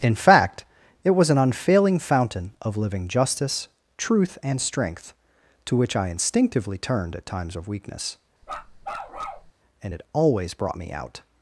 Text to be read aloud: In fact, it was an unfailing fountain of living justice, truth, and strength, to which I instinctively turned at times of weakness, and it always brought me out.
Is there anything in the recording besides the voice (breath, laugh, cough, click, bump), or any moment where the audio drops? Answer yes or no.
yes